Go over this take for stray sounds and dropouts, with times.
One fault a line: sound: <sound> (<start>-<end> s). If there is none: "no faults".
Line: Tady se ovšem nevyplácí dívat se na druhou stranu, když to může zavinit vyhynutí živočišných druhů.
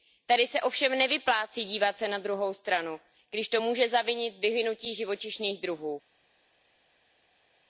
no faults